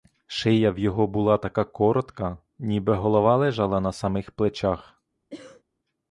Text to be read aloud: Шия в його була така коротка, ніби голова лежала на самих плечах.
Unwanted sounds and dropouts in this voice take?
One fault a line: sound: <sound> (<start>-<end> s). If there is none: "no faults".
sound: cough (5.3-5.6 s)